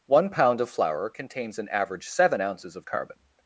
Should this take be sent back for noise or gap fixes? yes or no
no